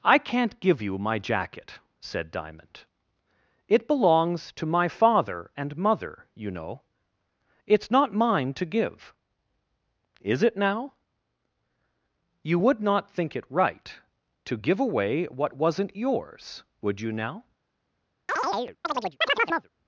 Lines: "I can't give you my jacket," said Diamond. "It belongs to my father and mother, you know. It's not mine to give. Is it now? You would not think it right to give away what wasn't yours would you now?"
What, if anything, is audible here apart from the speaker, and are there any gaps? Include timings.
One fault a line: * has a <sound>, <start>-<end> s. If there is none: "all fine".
* has a chirp, 18.3-19.7 s